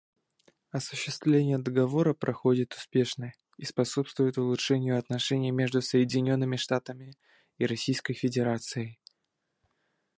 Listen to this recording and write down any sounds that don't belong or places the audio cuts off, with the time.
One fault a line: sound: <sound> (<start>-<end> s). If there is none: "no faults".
no faults